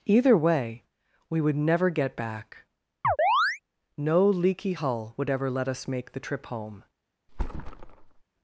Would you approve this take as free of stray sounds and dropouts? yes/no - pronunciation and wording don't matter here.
no